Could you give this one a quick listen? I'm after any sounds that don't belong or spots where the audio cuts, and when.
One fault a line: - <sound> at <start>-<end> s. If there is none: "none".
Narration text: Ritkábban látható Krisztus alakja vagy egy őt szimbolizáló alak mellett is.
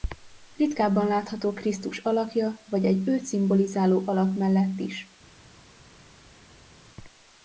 none